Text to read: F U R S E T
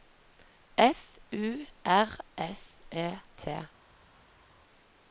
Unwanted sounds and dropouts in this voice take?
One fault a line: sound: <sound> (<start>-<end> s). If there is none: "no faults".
no faults